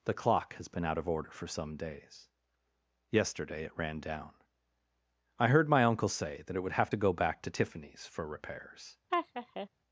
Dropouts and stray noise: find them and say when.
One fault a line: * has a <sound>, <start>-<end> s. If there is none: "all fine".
* has a laugh, 9.1-9.7 s